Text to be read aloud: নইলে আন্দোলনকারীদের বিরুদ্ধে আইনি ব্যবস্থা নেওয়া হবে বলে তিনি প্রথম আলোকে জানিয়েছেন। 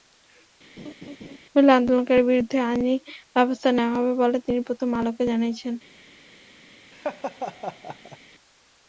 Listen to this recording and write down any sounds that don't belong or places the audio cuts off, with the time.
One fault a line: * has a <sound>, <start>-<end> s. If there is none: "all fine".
* has a laugh, 0.8-1.4 s
* has a laugh, 6.9-8.2 s